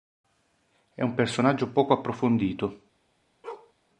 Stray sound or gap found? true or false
true